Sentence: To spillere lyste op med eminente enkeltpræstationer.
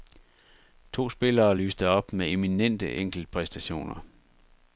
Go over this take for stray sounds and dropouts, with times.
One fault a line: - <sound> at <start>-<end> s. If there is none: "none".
none